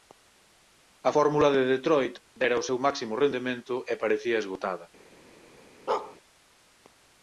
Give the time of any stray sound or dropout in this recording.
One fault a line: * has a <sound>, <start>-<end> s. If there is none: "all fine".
* has a bark, 5.9-6.2 s